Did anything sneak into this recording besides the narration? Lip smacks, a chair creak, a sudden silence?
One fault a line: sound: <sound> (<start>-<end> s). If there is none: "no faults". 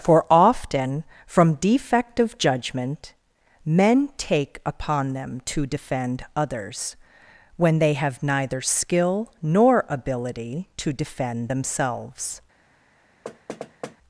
sound: thud (13.2-14.0 s)